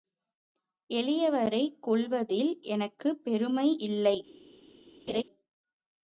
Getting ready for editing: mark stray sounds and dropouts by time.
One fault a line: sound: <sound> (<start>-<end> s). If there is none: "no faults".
sound: laugh (5.1-5.2 s)